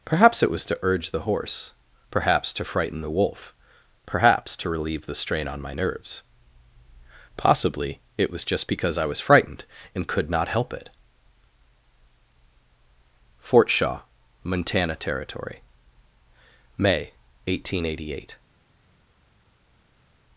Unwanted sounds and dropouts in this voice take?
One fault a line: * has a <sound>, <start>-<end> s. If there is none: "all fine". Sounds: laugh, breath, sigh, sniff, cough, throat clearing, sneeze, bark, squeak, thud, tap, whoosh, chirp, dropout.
all fine